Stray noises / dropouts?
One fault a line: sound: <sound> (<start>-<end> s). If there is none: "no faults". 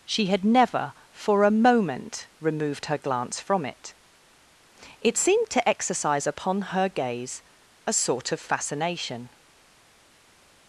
no faults